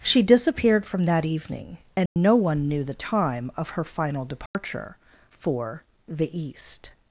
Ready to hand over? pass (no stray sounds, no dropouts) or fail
fail